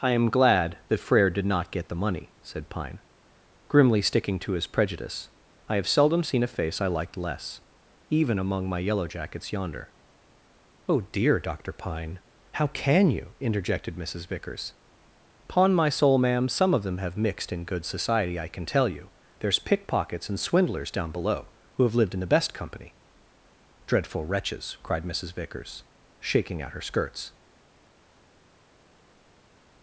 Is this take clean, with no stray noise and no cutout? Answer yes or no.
yes